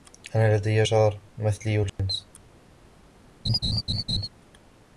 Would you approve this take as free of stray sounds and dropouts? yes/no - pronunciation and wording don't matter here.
no